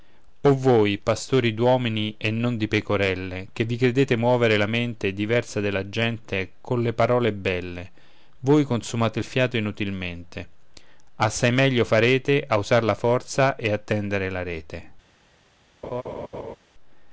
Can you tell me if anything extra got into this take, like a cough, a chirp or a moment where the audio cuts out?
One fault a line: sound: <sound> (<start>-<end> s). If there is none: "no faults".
sound: laugh (15.8-16.6 s)